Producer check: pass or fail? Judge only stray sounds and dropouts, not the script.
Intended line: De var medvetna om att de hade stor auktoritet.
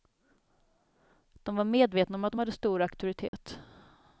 fail